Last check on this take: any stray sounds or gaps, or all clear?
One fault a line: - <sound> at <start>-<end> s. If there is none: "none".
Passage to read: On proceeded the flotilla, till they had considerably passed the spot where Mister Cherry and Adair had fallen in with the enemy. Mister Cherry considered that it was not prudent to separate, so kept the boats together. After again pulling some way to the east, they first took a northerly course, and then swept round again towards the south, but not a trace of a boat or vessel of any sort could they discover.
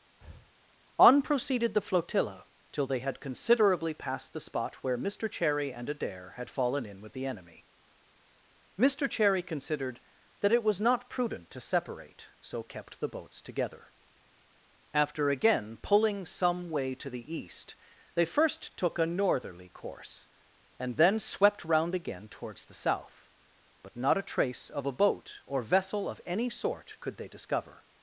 - breath at 0.2-0.5 s